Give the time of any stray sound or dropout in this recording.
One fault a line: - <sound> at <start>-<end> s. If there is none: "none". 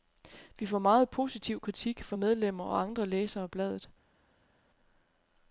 none